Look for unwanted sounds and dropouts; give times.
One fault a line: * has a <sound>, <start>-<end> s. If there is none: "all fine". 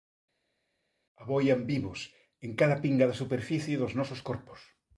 all fine